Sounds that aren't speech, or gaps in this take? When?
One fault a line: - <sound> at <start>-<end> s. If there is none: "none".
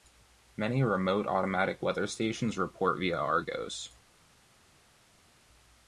none